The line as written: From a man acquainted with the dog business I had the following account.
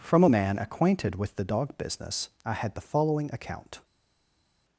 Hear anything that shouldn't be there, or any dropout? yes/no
no